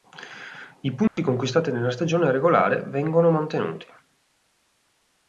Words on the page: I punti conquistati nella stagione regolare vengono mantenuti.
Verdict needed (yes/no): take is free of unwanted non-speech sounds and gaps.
no